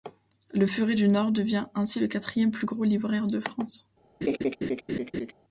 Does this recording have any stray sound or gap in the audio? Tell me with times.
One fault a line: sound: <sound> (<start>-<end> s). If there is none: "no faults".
sound: laugh (4.2-5.3 s)